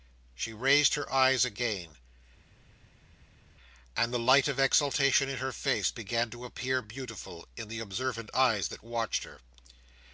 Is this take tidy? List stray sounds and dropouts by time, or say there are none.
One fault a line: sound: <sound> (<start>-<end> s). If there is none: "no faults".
no faults